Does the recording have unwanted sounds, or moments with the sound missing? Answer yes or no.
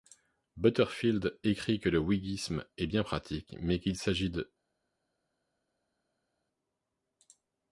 no